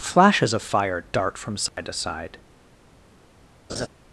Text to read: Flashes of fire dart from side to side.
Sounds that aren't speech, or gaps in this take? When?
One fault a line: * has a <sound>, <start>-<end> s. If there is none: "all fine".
* has a dropout, 1.7-1.8 s
* has a laugh, 3.7-3.9 s